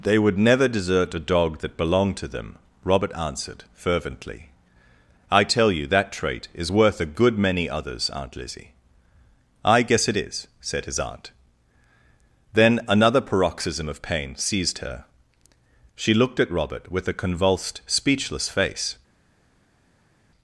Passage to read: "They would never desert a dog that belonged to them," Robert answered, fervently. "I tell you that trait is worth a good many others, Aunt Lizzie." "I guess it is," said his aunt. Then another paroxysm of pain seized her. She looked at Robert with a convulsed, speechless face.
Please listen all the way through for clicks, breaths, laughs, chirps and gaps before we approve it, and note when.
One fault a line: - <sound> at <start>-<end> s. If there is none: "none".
none